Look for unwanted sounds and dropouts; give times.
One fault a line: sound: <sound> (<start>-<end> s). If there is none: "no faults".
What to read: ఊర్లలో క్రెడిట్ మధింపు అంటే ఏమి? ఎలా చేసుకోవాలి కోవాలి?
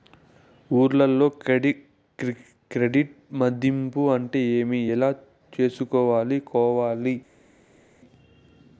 no faults